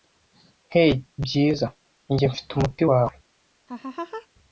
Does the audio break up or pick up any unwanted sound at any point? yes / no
yes